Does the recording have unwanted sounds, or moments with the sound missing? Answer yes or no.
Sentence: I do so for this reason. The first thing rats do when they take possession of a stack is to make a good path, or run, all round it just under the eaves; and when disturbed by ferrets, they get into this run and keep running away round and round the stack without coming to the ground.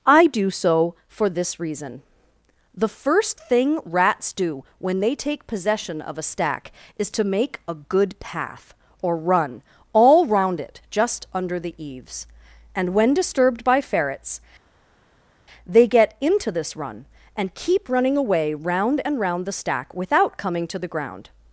no